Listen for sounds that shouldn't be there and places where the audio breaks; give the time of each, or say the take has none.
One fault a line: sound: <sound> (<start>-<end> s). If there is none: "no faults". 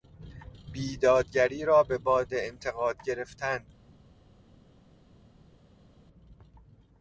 no faults